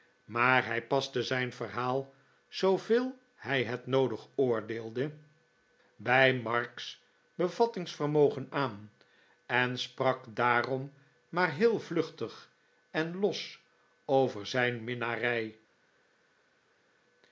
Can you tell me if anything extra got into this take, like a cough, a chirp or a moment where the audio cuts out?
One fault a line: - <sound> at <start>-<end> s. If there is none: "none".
none